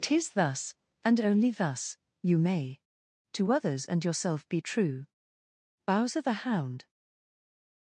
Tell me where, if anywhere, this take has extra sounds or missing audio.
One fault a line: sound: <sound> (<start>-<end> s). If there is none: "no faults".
no faults